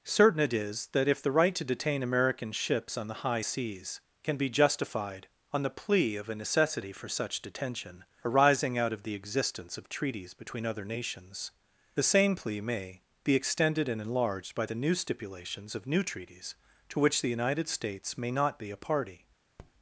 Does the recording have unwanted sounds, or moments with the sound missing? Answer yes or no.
yes